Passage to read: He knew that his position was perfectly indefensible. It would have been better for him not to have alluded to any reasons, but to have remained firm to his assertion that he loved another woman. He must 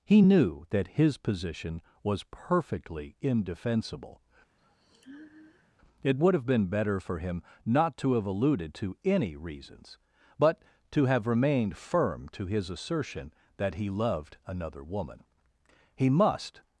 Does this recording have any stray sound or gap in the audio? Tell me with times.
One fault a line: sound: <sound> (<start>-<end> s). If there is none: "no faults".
sound: sigh (4.6-5.7 s)